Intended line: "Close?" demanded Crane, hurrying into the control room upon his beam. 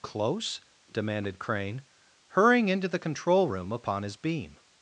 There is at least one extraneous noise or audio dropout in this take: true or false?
false